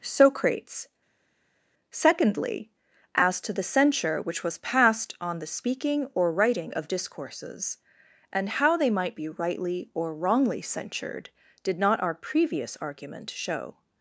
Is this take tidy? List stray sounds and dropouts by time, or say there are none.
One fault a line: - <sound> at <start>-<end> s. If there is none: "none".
none